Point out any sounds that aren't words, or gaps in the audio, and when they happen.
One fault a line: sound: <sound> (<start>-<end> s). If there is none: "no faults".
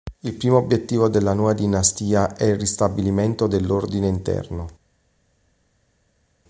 no faults